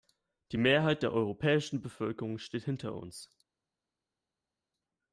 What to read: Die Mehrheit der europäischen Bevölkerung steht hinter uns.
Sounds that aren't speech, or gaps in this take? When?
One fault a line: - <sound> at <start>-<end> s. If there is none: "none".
none